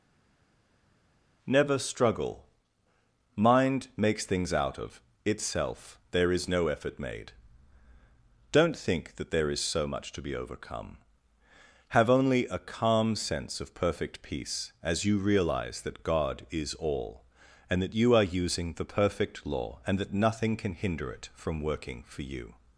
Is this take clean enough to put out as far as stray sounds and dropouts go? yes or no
yes